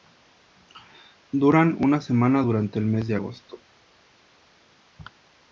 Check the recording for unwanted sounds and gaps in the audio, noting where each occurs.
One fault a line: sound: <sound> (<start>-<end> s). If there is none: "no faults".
no faults